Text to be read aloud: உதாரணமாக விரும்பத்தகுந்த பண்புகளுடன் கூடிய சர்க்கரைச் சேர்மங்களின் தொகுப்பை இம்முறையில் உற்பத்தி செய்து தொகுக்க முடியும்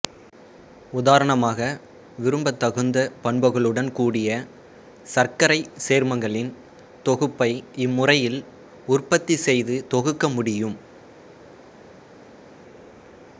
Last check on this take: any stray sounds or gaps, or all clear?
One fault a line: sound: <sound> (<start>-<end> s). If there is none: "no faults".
no faults